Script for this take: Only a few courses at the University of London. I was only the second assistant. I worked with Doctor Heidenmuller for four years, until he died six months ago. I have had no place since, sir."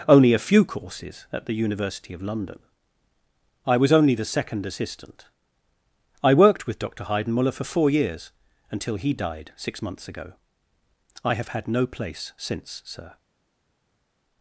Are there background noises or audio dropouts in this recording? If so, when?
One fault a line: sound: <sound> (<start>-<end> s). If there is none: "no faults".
no faults